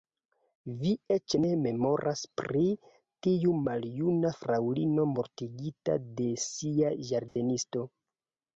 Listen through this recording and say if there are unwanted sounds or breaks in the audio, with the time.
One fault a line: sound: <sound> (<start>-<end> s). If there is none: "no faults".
sound: dropout (7.3-7.4 s)